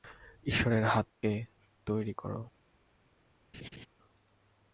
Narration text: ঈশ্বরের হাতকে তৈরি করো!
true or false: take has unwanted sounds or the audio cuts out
true